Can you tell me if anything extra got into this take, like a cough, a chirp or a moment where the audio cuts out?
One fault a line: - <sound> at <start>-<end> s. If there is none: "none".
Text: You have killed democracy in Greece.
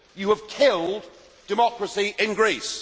none